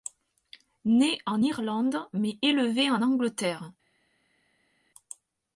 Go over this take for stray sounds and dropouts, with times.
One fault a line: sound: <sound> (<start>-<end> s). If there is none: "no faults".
no faults